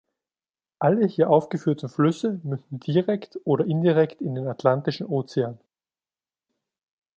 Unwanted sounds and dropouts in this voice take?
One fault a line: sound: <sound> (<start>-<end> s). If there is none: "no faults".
no faults